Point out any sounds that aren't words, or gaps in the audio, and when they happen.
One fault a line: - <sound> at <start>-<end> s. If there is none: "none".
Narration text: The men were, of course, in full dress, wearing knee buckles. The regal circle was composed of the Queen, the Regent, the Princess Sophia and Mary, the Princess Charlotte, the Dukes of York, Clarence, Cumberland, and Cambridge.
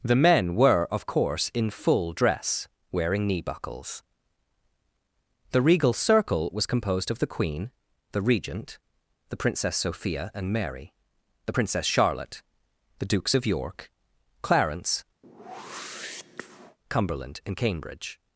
- whoosh at 15.2-16.8 s